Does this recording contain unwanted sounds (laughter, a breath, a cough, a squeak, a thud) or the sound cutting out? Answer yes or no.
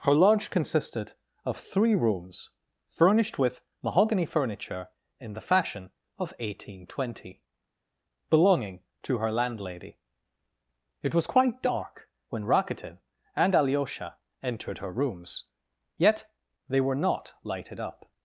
no